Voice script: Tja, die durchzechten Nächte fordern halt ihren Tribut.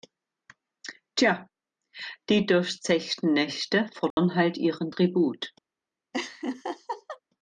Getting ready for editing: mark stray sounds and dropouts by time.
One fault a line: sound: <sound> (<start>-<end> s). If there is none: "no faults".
sound: dropout (4.1-4.2 s)
sound: laugh (6.1-7.2 s)